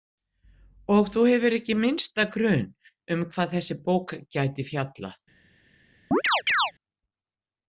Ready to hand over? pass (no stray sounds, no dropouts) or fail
fail